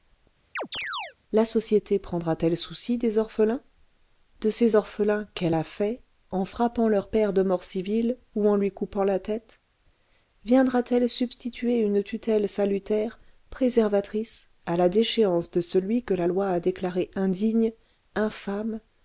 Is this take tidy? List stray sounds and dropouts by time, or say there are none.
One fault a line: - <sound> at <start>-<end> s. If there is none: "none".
- chirp at 0.6-1.1 s